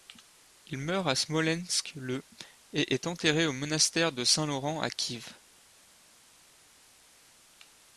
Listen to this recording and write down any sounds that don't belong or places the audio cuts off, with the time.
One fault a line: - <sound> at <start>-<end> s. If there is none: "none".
none